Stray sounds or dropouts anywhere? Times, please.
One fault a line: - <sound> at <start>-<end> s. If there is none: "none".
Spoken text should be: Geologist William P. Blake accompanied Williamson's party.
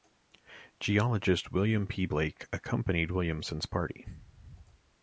none